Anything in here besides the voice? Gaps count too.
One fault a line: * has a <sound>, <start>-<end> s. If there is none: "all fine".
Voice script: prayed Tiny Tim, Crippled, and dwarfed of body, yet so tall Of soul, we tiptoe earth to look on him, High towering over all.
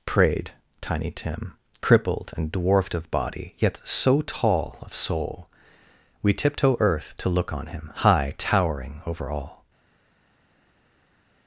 all fine